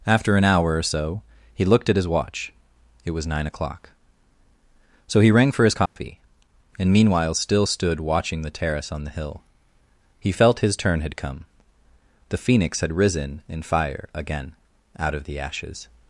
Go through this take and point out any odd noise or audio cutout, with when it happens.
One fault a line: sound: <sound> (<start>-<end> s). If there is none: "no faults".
sound: dropout (5.9-6.0 s)